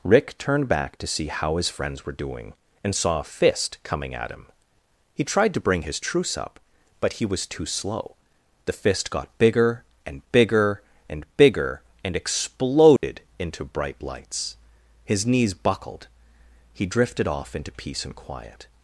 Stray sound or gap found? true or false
true